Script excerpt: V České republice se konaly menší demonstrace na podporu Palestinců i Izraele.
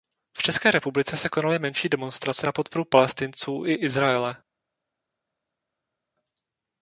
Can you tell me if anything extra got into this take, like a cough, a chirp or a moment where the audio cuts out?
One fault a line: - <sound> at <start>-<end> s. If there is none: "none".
none